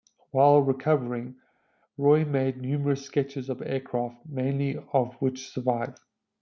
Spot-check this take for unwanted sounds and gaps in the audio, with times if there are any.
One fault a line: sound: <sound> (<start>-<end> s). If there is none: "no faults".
no faults